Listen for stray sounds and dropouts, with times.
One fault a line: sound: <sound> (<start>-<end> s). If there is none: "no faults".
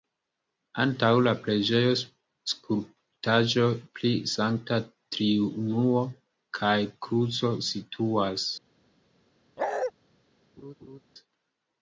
sound: bark (9.6-9.9 s)
sound: laugh (10.6-11.0 s)